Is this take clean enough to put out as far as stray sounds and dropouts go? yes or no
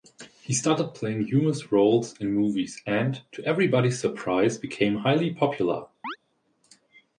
no